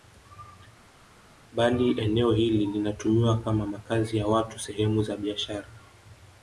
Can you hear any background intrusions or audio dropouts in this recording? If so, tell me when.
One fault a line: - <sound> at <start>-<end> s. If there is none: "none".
none